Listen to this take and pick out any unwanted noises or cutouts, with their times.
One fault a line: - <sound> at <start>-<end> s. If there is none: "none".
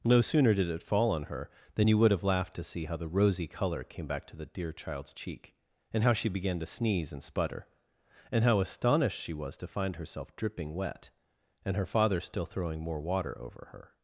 none